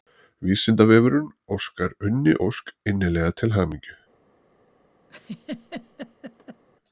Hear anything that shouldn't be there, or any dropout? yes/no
yes